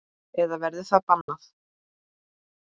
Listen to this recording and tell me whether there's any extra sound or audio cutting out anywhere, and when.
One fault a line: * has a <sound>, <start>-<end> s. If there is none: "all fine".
* has a dropout, 1.2-1.3 s